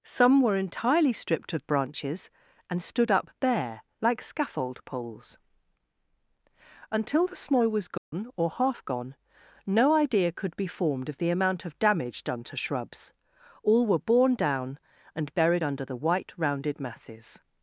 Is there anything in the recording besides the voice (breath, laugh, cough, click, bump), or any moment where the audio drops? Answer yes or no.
yes